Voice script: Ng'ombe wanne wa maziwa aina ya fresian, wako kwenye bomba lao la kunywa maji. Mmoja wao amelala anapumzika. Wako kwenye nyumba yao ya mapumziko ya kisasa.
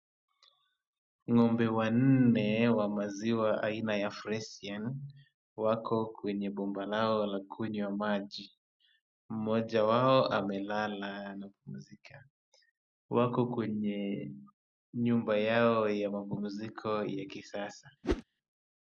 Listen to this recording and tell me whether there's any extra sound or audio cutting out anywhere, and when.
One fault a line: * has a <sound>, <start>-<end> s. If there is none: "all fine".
* has a whoosh, 18.0-18.2 s